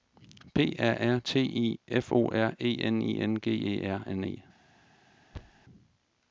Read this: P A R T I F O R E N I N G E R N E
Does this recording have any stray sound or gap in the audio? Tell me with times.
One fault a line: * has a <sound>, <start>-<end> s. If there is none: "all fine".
* has a thud, 5.3-5.6 s